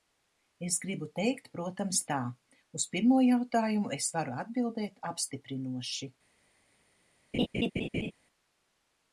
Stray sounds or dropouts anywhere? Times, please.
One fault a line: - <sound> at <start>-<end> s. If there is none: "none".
- laugh at 7.3-8.1 s